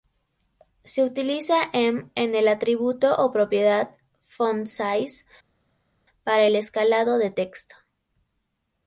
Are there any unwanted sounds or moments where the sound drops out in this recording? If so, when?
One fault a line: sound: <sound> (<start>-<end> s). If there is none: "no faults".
no faults